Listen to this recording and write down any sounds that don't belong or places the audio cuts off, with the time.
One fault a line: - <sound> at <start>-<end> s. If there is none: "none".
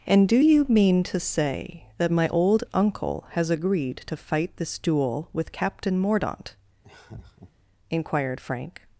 - laugh at 6.8-7.5 s